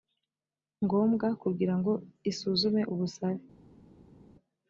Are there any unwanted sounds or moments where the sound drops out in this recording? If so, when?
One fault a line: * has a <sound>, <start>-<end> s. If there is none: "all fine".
all fine